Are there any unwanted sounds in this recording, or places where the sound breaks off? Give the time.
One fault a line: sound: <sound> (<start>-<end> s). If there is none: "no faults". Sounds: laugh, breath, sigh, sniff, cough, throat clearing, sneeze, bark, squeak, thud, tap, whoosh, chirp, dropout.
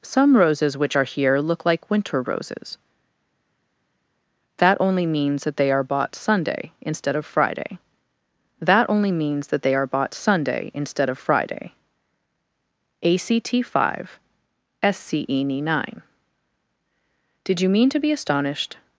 no faults